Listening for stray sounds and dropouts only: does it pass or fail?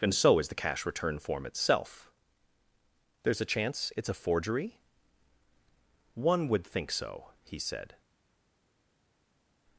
pass